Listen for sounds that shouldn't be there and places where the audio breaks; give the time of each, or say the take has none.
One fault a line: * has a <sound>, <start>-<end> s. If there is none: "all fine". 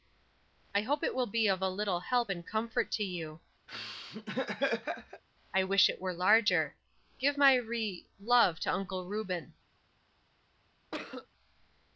* has a laugh, 3.7-5.2 s
* has a cough, 10.9-11.3 s